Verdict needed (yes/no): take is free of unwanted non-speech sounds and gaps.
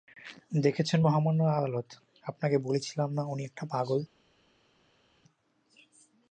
yes